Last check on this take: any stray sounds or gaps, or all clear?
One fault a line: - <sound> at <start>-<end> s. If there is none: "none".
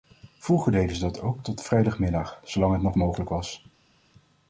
none